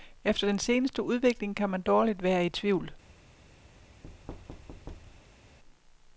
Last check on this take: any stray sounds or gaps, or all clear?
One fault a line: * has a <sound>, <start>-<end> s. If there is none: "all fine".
* has a thud, 4.0-5.6 s